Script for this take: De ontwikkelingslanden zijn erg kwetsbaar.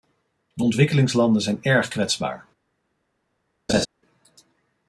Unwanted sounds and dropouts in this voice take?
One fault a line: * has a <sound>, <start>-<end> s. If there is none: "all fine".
* has a laugh, 3.7-3.9 s